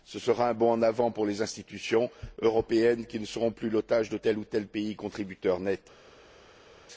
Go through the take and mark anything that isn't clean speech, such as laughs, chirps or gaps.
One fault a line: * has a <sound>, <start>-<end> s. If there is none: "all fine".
all fine